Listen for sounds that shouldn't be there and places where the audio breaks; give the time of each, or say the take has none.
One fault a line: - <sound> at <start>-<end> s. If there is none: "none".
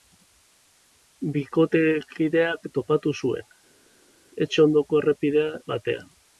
none